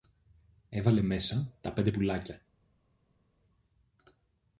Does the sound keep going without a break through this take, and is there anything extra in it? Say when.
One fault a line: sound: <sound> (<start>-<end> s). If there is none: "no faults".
no faults